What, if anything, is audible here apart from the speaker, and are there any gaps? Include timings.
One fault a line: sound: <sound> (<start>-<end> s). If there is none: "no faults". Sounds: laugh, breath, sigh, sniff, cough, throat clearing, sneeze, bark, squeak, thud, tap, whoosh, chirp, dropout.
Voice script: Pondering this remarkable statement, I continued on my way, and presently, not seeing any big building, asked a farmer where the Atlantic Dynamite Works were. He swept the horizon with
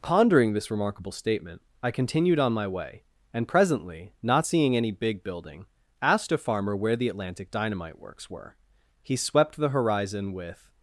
no faults